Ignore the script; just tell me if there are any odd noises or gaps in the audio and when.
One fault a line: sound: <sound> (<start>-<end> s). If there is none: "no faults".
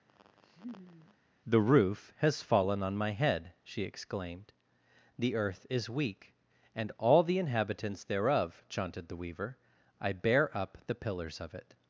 sound: laugh (0.1-1.2 s)